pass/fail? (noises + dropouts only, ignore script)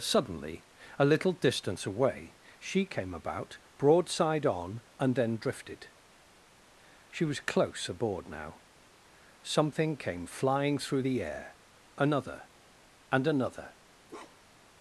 fail